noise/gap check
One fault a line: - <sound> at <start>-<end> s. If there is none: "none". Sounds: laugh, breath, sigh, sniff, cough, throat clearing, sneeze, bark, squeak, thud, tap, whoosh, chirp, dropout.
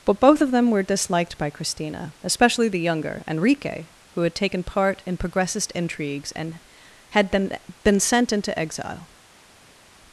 none